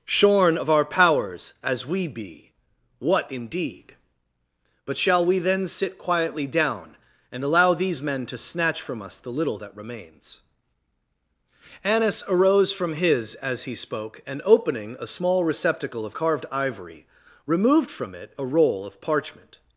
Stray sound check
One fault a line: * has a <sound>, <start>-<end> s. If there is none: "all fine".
all fine